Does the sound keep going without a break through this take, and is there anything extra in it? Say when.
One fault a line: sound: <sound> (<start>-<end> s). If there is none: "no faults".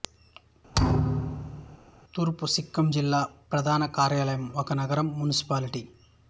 sound: thud (0.7-1.8 s)